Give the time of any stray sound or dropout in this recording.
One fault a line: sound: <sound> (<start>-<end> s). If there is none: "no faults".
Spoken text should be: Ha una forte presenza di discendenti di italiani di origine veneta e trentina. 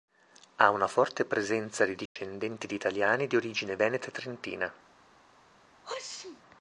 sound: dropout (2.1-2.2 s)
sound: sneeze (5.8-6.4 s)